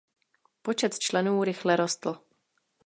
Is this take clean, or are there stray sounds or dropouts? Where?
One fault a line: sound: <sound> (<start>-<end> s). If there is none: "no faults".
no faults